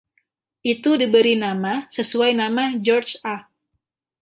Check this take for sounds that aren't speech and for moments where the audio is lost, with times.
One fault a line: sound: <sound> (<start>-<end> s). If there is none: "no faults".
no faults